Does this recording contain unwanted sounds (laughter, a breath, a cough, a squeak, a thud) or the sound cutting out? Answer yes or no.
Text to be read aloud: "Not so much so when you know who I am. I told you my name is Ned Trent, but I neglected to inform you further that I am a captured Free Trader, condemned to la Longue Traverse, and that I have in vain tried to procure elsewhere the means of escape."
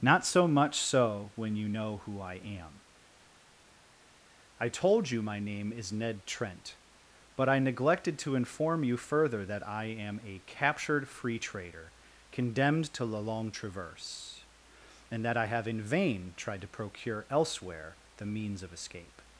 no